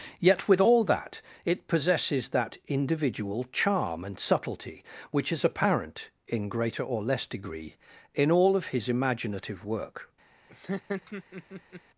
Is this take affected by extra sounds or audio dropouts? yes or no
yes